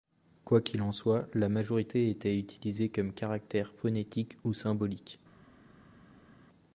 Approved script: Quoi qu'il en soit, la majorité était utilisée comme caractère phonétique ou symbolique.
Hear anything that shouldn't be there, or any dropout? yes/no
no